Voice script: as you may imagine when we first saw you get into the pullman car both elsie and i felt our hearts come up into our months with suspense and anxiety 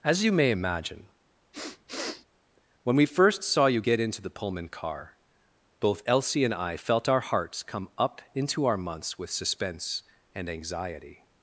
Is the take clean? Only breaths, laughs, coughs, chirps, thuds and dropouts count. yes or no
no